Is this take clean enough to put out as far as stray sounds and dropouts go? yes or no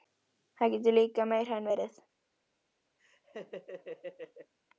no